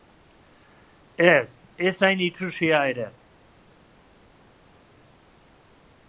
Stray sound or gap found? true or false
false